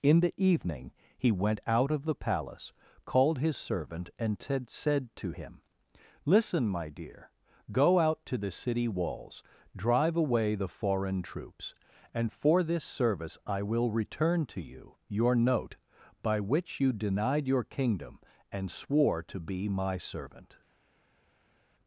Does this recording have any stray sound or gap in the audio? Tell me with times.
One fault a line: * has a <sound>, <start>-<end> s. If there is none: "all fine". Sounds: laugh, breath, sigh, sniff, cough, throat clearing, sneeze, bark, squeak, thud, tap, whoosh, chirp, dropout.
all fine